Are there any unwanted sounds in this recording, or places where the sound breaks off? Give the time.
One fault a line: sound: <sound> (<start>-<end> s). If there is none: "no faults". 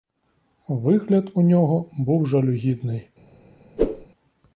sound: whoosh (3.8-4.1 s)